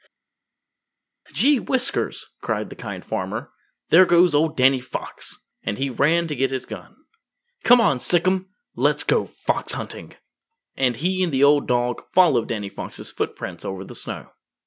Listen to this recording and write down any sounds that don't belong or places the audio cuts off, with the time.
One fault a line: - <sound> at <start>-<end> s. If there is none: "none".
none